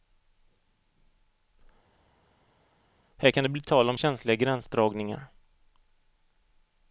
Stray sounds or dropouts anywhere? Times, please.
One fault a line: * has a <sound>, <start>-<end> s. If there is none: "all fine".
all fine